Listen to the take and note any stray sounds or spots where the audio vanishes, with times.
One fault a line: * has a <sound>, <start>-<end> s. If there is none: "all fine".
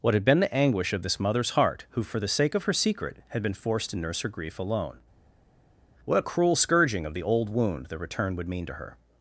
all fine